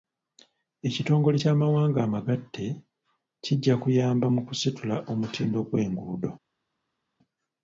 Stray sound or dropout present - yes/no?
no